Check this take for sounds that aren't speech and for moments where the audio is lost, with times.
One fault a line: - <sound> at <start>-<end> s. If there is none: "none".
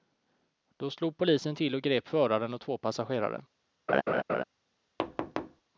- laugh at 3.9-4.4 s
- thud at 5.0-5.6 s